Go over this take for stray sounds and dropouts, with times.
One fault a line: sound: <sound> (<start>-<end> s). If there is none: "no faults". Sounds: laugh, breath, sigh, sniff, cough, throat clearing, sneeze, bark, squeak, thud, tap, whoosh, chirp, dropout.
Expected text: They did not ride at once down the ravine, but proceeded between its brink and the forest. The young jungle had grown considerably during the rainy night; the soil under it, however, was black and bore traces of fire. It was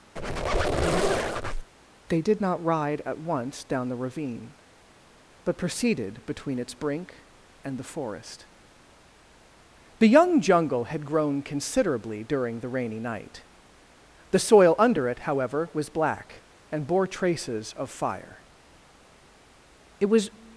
sound: squeak (0.2-1.7 s)